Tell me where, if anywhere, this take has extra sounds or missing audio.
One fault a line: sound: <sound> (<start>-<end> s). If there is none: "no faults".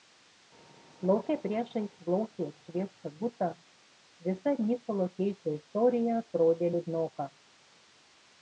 no faults